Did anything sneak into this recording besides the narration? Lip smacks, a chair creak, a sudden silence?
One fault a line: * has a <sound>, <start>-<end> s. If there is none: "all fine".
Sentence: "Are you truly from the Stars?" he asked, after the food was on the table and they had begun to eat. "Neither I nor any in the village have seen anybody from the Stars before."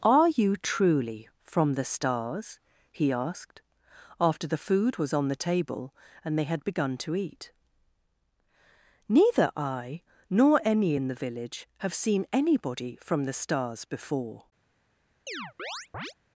* has a chirp, 15.3-16.1 s